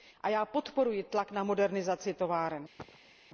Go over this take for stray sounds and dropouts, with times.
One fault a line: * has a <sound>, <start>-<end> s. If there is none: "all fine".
* has a cough, 2.8-3.1 s